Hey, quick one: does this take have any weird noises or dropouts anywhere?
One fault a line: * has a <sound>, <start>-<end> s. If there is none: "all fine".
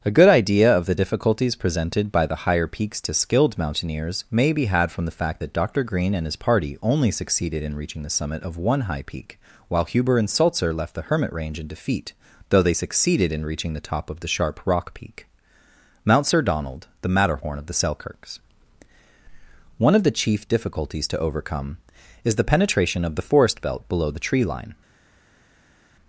all fine